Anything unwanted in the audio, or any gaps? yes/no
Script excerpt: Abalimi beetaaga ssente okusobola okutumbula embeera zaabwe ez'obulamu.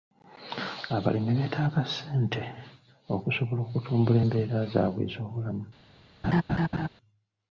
yes